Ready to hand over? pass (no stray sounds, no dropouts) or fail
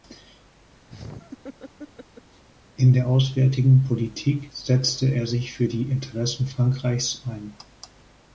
fail